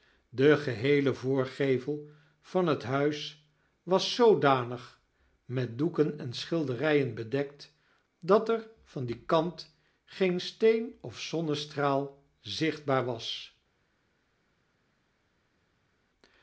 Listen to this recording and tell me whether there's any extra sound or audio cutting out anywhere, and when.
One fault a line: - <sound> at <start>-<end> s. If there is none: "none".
none